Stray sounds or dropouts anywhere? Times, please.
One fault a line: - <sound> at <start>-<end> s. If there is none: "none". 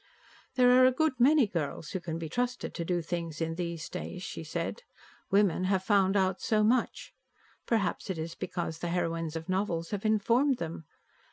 none